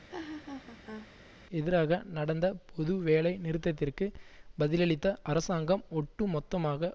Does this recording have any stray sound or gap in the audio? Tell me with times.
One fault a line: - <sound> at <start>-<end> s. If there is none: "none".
- laugh at 0.1-1.1 s